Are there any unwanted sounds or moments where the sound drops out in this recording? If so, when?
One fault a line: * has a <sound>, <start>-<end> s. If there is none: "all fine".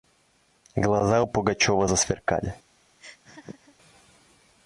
* has a laugh, 3.0-3.8 s